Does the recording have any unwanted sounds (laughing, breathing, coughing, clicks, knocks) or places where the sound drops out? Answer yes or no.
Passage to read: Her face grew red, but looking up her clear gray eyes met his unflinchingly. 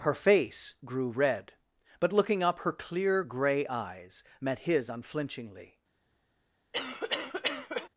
yes